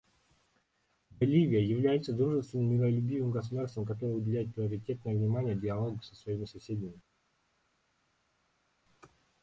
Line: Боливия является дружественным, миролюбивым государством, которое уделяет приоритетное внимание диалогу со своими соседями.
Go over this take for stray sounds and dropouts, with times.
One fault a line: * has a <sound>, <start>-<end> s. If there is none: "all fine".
all fine